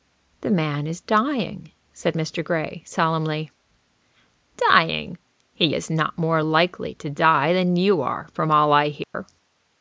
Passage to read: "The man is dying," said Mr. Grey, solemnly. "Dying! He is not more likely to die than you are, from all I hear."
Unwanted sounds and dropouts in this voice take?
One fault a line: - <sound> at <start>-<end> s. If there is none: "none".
- dropout at 9.0-9.1 s